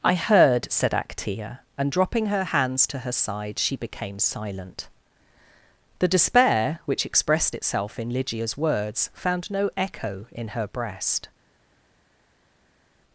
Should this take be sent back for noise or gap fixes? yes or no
no